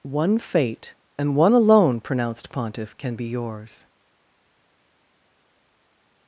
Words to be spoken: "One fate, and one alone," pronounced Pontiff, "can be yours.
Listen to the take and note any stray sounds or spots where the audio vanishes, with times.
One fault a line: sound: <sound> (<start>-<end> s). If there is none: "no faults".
no faults